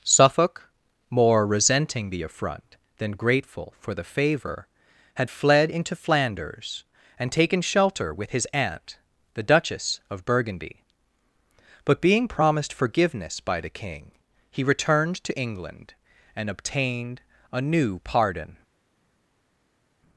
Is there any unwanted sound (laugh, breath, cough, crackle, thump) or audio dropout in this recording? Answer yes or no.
no